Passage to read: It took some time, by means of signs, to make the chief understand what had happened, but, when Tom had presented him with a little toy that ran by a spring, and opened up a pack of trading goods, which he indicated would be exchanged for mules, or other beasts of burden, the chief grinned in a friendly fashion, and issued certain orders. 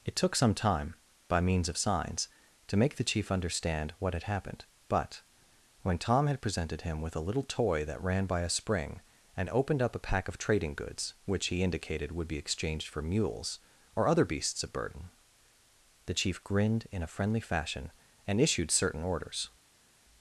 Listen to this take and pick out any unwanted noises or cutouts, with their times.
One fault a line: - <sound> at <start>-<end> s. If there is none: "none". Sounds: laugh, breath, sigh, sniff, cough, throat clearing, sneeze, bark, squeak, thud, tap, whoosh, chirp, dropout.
none